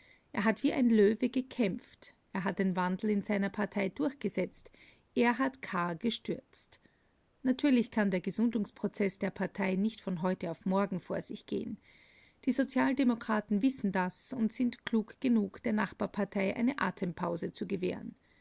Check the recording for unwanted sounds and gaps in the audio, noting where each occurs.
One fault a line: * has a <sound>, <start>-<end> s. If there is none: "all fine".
all fine